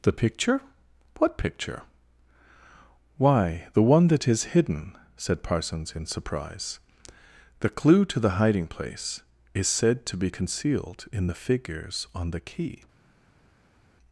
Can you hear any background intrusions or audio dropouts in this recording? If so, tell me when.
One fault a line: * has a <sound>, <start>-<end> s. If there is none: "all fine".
all fine